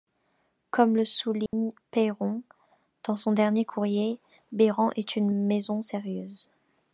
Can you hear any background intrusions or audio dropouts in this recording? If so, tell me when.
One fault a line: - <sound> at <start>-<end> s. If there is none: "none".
- dropout at 1.5-1.5 s